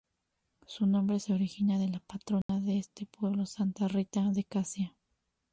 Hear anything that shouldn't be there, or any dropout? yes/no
yes